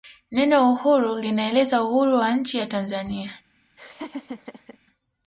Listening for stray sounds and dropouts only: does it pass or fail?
fail